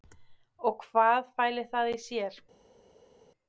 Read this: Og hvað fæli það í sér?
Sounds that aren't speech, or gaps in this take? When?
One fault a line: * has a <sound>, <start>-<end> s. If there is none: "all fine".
all fine